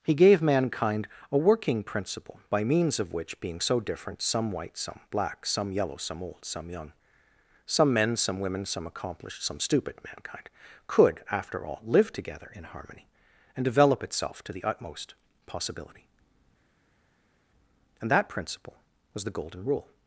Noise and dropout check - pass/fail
pass